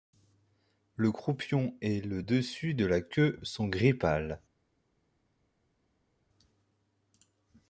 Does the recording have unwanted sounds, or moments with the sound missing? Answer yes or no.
no